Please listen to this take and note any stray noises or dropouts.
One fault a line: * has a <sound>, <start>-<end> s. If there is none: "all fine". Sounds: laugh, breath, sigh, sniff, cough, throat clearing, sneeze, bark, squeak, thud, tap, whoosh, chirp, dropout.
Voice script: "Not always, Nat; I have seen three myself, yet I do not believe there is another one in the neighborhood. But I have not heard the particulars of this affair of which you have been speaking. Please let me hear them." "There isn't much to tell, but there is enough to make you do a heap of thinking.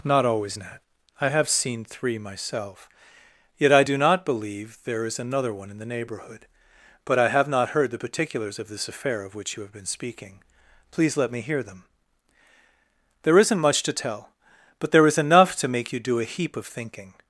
all fine